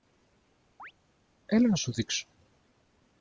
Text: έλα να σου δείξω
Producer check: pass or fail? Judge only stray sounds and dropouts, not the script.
fail